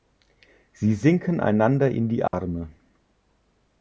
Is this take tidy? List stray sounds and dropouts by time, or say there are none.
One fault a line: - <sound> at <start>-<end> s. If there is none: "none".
- dropout at 2.3-2.3 s